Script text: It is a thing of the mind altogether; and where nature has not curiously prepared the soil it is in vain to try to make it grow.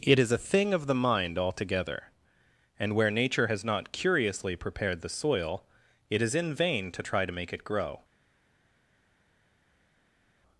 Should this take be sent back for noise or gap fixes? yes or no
no